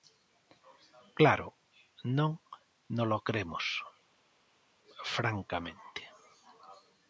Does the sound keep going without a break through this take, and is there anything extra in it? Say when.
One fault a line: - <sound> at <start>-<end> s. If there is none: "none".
none